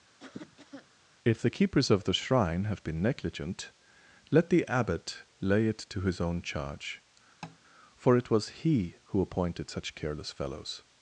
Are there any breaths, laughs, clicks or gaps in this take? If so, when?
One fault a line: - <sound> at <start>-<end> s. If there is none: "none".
- cough at 0.2-0.9 s
- tap at 7.4-7.6 s